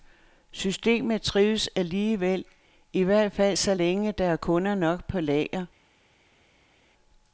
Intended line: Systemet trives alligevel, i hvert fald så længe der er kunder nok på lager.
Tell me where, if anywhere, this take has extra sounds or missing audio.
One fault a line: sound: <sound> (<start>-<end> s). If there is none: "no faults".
no faults